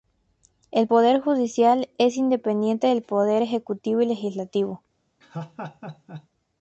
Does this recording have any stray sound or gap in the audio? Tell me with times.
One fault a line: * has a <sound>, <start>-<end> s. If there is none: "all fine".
* has a laugh, 5.2-6.3 s